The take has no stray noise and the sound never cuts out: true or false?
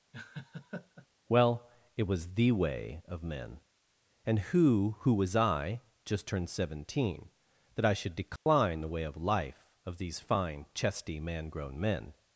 false